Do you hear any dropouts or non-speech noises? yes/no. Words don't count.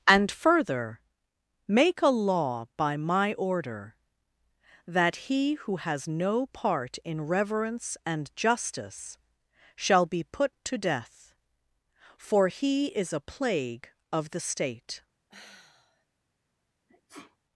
yes